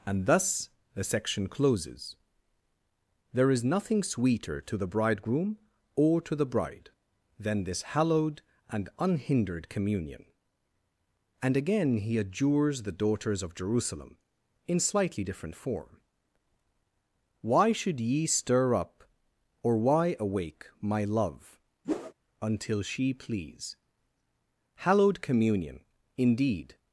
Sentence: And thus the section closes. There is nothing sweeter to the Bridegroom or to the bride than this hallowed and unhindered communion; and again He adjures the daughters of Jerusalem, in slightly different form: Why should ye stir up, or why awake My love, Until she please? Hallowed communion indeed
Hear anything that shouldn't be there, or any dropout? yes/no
yes